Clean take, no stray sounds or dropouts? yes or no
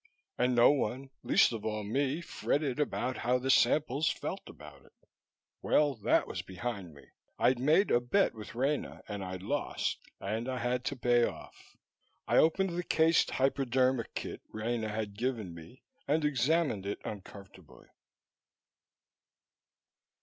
yes